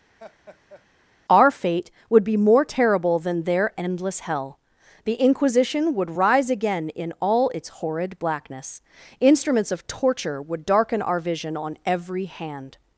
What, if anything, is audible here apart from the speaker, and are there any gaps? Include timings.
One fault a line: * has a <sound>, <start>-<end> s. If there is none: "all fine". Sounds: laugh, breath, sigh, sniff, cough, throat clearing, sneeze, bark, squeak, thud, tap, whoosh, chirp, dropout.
* has a laugh, 0.2-0.9 s